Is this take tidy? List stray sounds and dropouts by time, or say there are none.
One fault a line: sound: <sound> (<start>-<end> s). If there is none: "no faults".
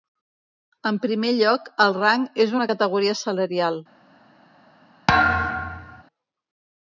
sound: thud (5.1-6.0 s)